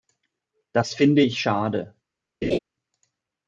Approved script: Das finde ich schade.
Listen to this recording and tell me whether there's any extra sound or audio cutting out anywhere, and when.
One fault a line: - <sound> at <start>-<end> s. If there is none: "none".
- laugh at 2.4-2.6 s